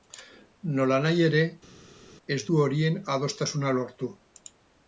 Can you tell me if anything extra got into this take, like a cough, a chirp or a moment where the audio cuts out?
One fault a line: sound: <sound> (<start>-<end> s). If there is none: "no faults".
no faults